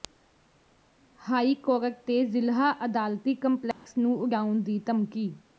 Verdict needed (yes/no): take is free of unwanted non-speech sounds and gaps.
no